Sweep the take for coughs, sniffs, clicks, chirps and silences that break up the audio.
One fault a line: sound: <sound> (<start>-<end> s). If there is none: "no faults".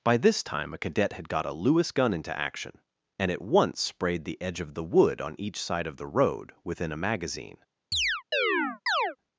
sound: chirp (7.9-9.2 s)